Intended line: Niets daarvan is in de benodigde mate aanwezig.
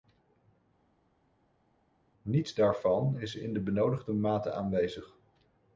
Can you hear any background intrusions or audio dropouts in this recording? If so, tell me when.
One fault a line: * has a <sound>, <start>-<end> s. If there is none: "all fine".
all fine